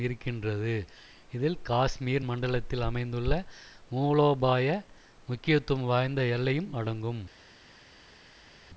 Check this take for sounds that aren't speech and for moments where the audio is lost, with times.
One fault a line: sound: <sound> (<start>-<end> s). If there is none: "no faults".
no faults